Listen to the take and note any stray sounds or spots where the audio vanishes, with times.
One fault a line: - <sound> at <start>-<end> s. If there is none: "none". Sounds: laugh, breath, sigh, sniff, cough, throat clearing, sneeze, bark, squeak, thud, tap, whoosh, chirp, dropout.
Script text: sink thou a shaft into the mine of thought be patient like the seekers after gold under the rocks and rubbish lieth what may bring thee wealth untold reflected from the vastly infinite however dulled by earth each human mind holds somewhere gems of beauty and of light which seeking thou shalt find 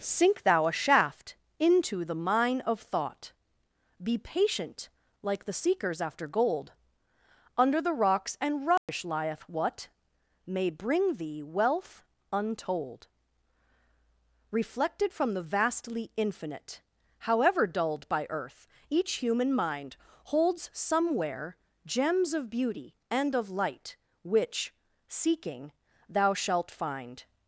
- dropout at 8.8-8.9 s